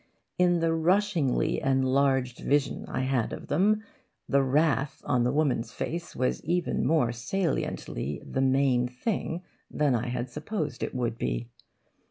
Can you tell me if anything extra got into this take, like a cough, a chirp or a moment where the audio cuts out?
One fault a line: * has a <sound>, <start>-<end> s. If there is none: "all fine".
all fine